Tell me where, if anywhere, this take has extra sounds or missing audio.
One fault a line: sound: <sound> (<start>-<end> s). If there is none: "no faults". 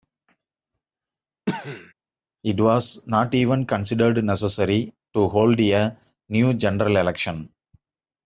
sound: cough (1.5-1.9 s)